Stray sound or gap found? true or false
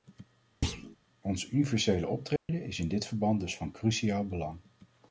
true